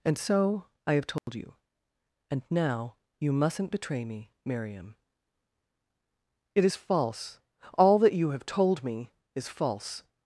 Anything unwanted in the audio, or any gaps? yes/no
yes